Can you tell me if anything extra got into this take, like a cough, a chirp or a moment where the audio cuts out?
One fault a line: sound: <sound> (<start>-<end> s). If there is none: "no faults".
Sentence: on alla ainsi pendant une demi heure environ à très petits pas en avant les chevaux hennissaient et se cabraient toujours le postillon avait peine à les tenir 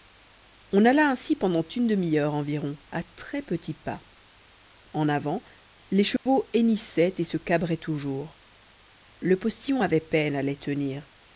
sound: dropout (6.2-6.3 s)